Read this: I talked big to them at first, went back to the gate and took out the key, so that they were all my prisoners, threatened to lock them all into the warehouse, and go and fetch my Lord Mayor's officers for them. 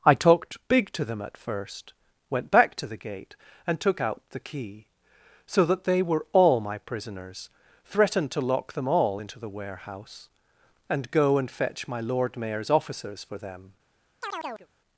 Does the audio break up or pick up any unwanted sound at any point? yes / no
yes